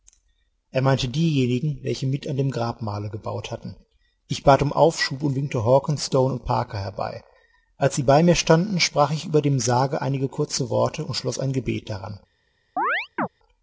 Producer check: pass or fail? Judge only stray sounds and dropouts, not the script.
fail